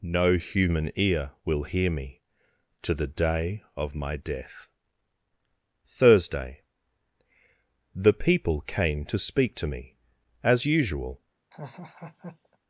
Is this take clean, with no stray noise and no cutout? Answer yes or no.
no